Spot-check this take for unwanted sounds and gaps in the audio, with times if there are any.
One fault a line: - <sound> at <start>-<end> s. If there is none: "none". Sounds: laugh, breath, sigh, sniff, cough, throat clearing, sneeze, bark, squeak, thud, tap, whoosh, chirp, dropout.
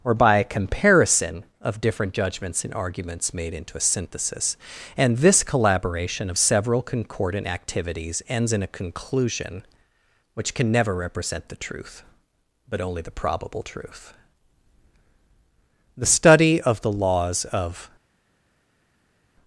none